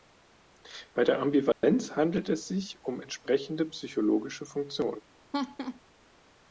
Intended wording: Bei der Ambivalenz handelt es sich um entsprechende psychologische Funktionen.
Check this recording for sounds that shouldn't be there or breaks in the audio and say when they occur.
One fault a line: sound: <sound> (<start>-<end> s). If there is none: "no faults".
sound: dropout (1.5-1.6 s)
sound: laugh (5.3-5.8 s)